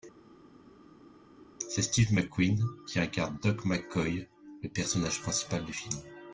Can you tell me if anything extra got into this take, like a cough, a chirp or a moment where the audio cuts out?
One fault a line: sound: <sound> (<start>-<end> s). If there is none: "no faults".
no faults